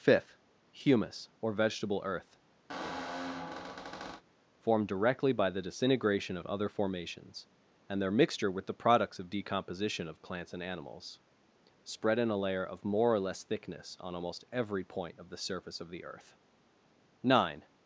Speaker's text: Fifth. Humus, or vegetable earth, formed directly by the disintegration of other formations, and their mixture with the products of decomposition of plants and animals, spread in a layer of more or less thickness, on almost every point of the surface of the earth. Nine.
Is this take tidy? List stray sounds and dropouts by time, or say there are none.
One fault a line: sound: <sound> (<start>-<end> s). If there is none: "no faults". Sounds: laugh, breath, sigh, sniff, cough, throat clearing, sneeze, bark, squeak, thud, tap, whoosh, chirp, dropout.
sound: squeak (2.7-4.2 s)